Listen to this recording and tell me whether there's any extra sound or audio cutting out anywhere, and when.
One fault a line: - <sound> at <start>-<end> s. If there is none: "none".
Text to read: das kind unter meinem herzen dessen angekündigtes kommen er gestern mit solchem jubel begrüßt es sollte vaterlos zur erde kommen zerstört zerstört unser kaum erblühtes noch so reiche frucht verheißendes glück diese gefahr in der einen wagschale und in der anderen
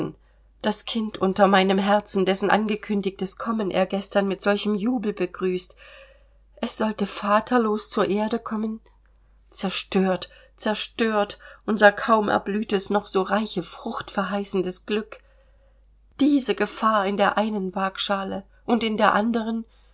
none